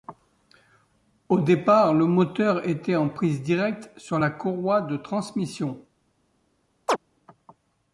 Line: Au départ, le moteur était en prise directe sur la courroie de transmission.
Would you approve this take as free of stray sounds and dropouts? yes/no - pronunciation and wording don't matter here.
no